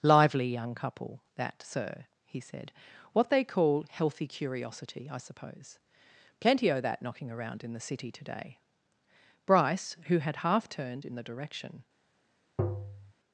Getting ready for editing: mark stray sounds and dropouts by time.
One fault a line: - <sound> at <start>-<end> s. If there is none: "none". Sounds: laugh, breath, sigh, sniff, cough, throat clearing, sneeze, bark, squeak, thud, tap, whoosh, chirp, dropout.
- tap at 12.6-13.1 s